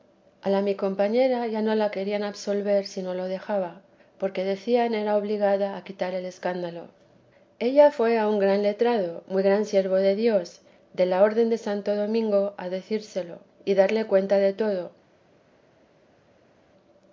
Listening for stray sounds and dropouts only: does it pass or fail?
pass